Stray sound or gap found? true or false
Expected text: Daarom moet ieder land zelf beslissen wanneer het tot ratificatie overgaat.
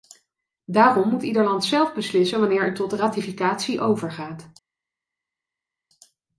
false